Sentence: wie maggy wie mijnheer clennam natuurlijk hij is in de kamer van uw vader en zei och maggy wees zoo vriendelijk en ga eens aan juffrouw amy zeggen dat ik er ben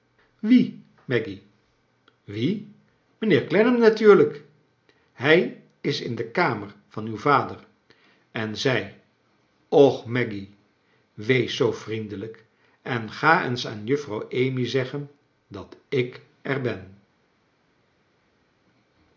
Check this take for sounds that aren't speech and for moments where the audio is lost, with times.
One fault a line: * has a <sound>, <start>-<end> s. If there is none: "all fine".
all fine